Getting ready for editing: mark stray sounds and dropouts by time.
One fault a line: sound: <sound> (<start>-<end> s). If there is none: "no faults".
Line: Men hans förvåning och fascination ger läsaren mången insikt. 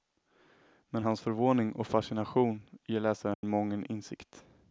sound: dropout (3.3-3.4 s)